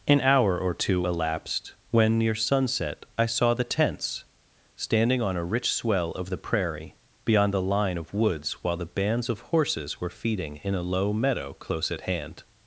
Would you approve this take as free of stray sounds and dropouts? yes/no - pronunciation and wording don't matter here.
yes